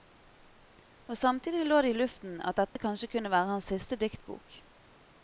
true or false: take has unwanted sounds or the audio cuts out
true